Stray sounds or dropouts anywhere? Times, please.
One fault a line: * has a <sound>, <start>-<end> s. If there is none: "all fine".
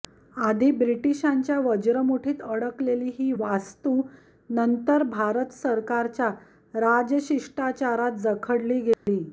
* has a dropout, 8.9-9.1 s